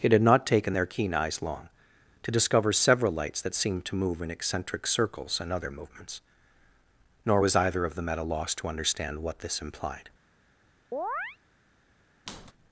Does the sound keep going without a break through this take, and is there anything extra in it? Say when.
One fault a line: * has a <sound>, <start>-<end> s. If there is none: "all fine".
* has a chirp, 10.9-11.4 s
* has a squeak, 12.3-12.5 s